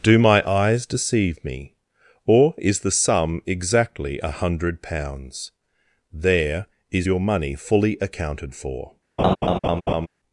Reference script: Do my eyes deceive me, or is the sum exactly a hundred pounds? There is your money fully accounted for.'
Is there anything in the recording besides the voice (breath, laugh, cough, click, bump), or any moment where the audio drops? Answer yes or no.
yes